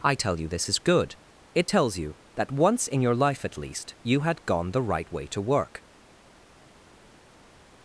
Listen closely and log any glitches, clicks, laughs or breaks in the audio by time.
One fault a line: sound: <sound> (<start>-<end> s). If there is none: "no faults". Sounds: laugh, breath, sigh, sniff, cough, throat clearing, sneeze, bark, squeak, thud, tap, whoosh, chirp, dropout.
no faults